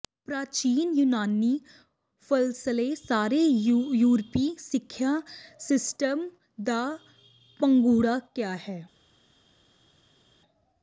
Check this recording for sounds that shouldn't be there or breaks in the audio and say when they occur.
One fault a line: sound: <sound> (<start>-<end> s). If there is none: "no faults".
no faults